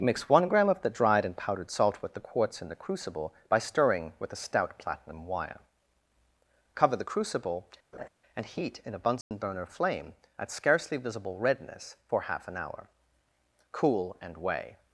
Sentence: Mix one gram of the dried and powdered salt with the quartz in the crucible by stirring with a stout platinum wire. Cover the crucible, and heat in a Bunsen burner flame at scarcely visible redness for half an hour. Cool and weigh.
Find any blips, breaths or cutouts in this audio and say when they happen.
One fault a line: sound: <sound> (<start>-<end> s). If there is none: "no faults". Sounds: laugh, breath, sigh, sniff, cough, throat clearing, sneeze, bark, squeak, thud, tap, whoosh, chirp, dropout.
sound: laugh (7.9-8.1 s)
sound: dropout (9.2-9.3 s)